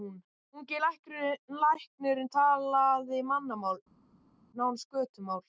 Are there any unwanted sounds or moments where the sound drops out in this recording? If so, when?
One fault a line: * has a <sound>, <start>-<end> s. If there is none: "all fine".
all fine